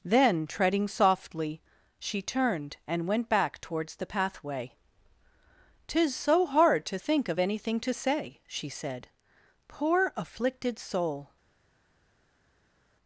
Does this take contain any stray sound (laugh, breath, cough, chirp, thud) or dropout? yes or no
no